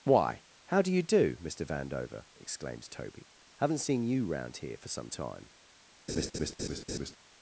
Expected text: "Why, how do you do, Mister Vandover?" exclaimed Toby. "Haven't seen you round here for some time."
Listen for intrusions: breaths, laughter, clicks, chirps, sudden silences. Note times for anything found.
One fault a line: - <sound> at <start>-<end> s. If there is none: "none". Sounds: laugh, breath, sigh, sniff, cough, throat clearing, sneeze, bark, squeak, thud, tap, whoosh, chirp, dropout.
- laugh at 6.1-7.2 s